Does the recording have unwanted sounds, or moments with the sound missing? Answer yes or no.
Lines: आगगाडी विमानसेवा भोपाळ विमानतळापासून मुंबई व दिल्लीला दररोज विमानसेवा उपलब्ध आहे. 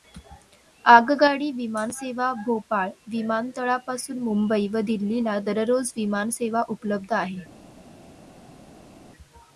no